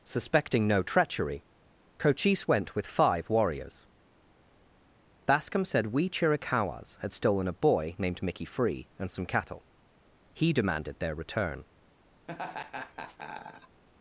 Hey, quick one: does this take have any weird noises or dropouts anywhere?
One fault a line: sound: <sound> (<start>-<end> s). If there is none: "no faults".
sound: laugh (12.3-13.8 s)